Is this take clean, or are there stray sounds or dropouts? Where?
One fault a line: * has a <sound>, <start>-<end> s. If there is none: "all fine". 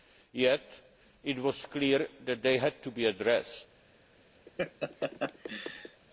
* has a laugh, 4.5-6.0 s